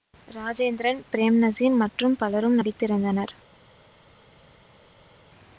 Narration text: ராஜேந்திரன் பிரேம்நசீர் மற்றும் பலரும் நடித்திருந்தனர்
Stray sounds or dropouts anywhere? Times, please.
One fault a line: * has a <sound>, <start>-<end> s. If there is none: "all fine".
all fine